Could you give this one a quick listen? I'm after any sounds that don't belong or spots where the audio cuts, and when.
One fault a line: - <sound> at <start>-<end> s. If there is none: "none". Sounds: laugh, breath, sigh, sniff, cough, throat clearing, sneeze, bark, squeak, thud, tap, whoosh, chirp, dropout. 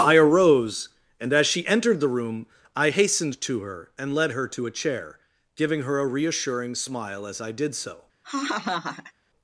- laugh at 8.2-9.1 s